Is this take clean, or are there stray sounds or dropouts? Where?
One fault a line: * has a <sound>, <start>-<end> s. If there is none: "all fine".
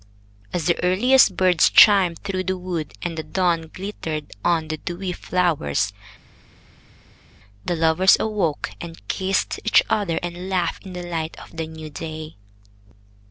all fine